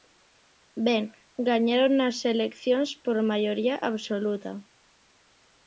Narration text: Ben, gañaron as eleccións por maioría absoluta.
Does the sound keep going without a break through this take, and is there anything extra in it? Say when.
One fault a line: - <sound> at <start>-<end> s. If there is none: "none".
none